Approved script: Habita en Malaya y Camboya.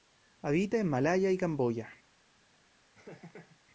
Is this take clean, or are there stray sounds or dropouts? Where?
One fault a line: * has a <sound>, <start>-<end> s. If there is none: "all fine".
* has a laugh, 2.9-3.6 s